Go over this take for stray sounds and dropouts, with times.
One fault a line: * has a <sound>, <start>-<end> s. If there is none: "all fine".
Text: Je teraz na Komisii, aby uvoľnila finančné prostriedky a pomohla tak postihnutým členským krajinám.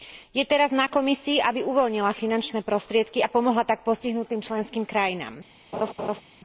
* has a laugh, 5.7-6.2 s